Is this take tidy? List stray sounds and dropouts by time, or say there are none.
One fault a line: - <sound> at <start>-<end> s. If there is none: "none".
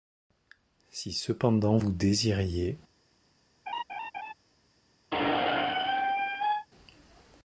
- laugh at 3.7-4.3 s
- squeak at 5.1-6.7 s